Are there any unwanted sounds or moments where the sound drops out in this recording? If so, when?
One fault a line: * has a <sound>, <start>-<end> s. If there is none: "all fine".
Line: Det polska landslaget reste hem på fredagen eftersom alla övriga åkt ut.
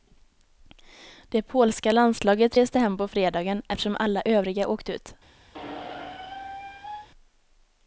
* has a squeak, 5.5-7.1 s